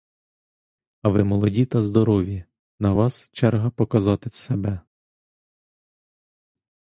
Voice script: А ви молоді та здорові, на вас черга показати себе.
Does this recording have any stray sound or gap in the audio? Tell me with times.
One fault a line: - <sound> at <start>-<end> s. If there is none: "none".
none